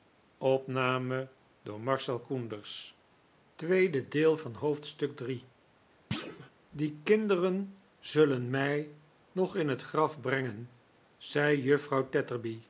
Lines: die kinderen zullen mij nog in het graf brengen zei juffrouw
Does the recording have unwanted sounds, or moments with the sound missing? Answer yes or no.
yes